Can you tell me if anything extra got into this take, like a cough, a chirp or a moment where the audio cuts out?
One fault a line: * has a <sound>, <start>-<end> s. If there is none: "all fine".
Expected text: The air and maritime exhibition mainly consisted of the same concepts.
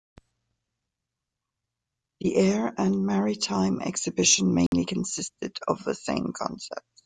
* has a dropout, 4.7-4.7 s